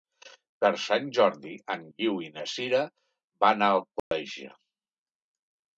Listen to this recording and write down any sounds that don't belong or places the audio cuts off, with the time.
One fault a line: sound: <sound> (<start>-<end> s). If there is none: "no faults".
sound: dropout (4.0-4.1 s)